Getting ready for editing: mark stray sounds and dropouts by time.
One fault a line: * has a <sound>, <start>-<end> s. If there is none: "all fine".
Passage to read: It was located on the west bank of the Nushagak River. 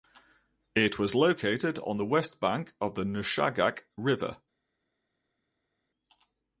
all fine